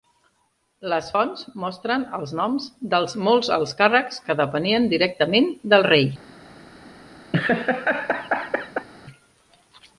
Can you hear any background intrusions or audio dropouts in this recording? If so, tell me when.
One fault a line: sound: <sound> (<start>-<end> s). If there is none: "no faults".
sound: laugh (7.3-8.9 s)